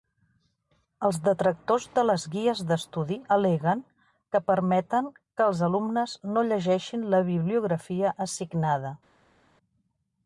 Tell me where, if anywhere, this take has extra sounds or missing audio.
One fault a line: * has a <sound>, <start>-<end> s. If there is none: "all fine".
all fine